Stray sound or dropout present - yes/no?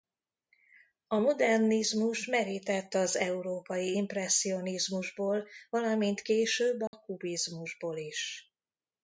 yes